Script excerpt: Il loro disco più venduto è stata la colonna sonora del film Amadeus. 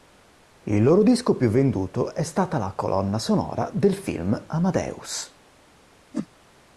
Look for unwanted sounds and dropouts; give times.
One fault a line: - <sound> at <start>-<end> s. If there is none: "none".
- whoosh at 6.1-6.3 s